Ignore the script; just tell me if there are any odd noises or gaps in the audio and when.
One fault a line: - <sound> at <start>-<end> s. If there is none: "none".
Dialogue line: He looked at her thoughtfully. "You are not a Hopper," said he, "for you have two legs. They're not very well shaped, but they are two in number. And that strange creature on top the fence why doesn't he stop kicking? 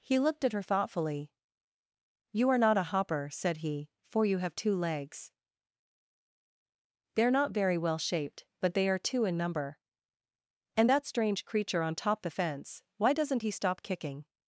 none